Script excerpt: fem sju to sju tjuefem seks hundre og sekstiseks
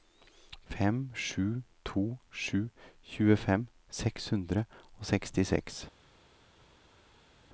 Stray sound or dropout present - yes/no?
no